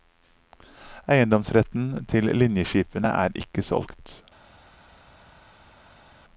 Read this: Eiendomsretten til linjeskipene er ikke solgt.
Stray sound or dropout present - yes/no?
no